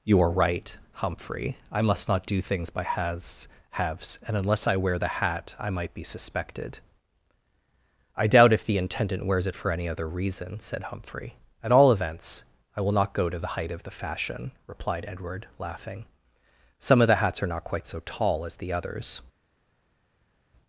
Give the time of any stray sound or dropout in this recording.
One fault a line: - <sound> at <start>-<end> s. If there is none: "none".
none